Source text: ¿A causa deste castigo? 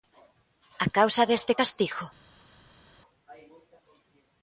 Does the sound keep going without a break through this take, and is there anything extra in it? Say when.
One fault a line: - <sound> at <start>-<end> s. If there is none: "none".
none